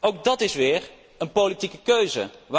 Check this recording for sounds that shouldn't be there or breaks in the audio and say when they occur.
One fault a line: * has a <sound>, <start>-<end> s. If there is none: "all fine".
all fine